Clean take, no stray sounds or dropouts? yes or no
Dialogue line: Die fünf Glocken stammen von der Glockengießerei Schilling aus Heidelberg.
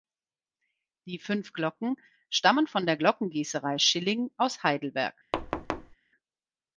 no